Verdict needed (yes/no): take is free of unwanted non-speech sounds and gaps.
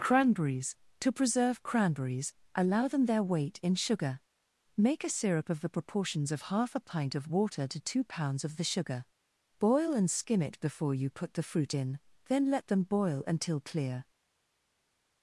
yes